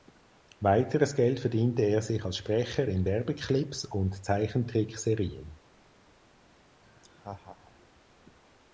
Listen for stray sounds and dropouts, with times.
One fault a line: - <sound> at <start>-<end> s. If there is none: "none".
- laugh at 6.8-7.9 s